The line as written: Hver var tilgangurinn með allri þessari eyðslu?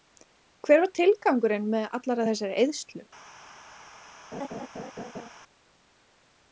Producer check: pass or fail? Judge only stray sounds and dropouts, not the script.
fail